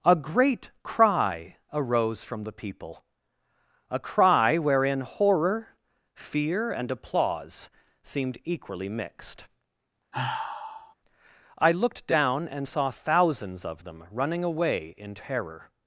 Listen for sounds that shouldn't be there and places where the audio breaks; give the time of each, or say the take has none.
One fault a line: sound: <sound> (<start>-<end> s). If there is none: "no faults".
sound: sigh (10.1-10.9 s)